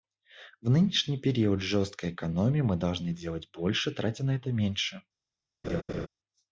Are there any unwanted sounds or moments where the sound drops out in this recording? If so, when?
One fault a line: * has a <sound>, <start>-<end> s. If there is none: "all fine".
* has a laugh, 5.6-6.1 s